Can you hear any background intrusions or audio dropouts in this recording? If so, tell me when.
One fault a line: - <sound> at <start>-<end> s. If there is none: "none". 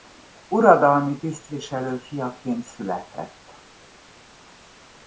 none